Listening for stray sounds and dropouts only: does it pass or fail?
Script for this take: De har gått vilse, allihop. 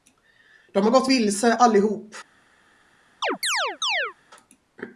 fail